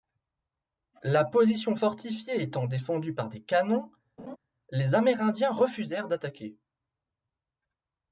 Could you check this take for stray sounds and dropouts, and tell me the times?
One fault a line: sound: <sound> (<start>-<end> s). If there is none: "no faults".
sound: laugh (4.2-4.4 s)